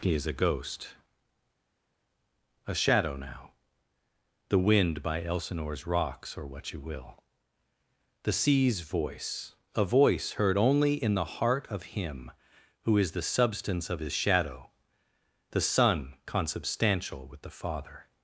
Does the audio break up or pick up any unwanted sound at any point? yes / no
no